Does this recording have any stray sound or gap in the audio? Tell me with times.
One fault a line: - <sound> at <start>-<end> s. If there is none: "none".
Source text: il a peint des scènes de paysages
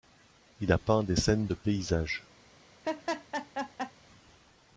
- laugh at 2.8-3.9 s